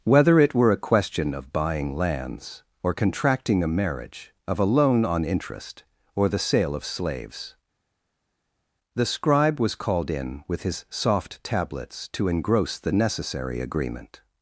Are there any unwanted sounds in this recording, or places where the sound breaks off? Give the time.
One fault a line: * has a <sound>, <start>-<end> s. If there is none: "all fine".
all fine